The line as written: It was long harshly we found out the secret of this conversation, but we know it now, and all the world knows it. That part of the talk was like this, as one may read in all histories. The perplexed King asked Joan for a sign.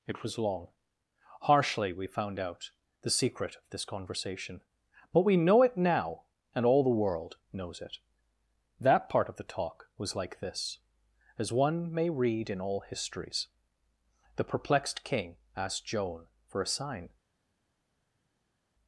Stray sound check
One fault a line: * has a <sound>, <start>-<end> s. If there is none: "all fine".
all fine